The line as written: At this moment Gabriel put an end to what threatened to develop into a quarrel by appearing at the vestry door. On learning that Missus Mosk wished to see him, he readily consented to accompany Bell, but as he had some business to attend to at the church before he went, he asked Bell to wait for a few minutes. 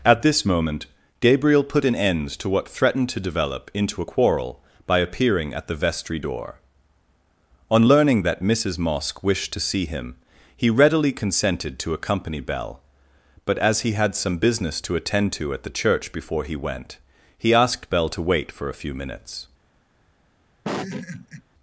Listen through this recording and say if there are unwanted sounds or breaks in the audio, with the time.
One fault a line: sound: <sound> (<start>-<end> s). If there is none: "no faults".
sound: laugh (20.6-21.4 s)